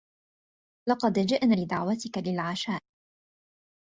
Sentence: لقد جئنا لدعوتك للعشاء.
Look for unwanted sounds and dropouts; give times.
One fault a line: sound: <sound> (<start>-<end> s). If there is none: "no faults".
no faults